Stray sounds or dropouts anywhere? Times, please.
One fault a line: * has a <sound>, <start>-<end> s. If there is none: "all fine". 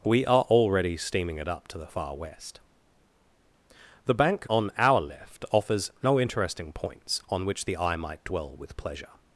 all fine